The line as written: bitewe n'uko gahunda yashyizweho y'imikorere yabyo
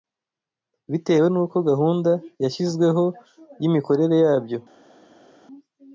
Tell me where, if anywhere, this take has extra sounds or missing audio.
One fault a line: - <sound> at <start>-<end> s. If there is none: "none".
none